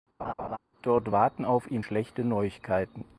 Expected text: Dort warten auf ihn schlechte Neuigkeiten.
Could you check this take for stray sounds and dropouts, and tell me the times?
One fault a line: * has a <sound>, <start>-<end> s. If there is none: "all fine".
* has a laugh, 0.2-0.6 s